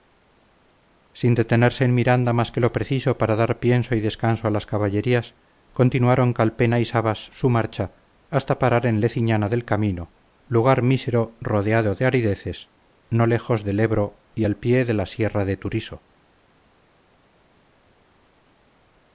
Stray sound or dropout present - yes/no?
no